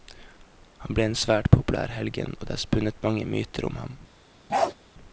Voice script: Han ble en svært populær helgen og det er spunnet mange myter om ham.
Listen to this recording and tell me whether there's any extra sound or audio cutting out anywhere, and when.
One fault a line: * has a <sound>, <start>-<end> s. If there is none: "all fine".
* has a bark, 4.5-4.7 s